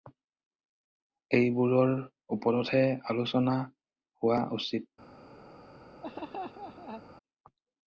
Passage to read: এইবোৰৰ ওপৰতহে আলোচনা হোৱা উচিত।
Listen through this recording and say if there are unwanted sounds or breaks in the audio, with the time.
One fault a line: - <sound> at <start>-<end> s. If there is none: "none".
- laugh at 6.0-7.0 s